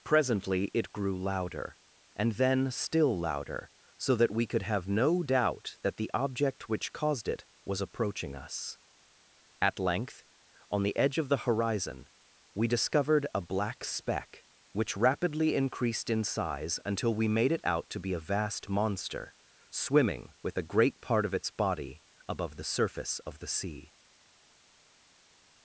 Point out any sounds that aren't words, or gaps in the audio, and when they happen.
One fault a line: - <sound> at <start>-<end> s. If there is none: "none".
none